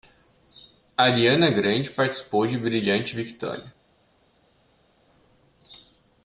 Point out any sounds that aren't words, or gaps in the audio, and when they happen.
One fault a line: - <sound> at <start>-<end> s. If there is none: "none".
none